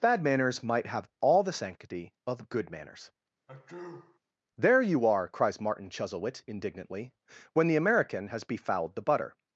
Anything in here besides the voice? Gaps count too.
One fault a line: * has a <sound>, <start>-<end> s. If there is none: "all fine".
* has a sneeze, 3.5-4.2 s